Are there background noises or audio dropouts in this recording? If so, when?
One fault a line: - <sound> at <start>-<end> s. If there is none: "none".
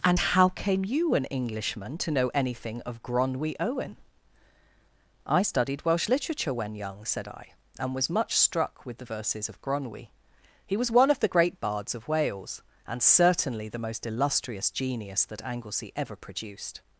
none